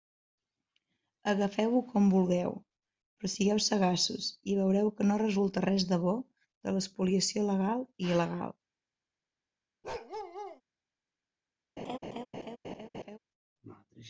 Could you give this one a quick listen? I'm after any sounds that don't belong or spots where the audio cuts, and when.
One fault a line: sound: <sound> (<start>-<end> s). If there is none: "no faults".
sound: bark (9.8-10.6 s)
sound: laugh (11.8-13.2 s)